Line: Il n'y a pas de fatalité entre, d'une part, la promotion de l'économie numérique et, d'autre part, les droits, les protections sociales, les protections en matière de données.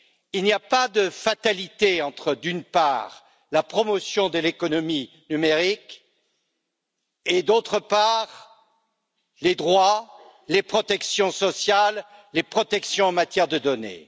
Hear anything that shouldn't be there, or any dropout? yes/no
no